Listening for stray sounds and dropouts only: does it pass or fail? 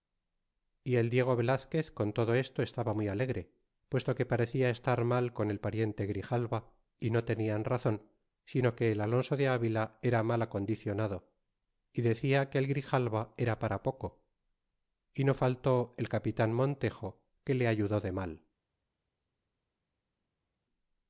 pass